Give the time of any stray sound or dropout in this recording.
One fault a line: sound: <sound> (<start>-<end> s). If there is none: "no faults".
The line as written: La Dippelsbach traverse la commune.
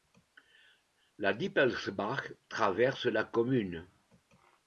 no faults